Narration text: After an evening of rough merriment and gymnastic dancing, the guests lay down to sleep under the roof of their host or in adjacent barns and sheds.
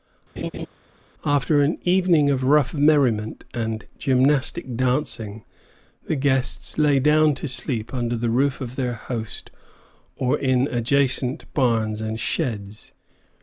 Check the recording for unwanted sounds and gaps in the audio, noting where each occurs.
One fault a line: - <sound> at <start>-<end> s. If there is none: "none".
- laugh at 0.4-0.7 s